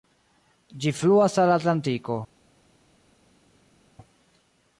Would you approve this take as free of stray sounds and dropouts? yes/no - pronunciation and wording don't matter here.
yes